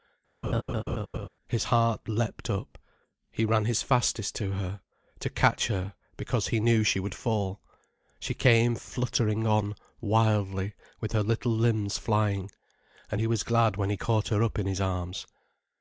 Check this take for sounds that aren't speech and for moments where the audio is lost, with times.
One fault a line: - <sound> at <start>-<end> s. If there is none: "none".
- laugh at 0.4-1.3 s